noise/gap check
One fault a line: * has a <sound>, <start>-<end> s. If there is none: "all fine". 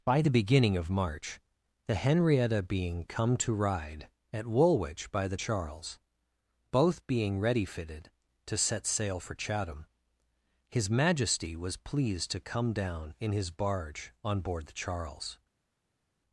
all fine